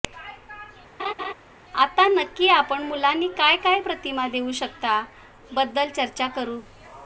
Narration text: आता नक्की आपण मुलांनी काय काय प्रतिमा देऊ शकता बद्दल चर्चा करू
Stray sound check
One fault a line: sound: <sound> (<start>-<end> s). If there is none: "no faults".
sound: laugh (1.0-1.3 s)